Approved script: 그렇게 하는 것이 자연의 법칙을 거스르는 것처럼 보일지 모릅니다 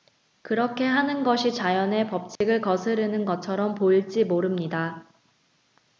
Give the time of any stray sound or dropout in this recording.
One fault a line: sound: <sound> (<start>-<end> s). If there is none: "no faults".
sound: dropout (2.4-2.4 s)